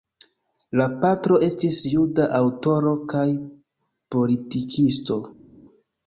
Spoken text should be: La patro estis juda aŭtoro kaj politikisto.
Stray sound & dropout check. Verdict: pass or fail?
pass